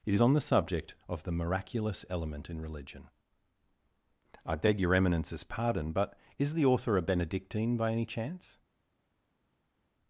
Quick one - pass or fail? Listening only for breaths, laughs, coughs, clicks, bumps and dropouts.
pass